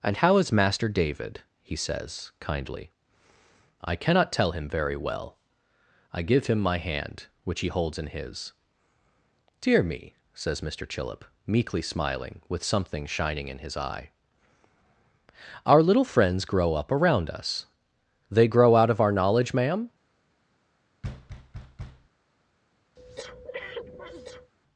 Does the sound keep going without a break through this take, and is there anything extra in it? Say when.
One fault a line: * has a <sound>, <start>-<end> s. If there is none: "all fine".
* has a thud, 21.0-22.1 s
* has a breath, 23.0-24.5 s